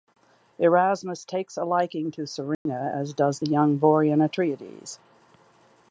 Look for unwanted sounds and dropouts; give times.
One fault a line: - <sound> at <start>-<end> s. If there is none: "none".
- dropout at 2.5-2.7 s